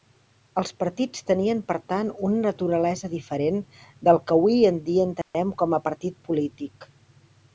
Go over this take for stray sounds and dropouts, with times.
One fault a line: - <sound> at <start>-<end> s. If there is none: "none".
- dropout at 5.2-5.3 s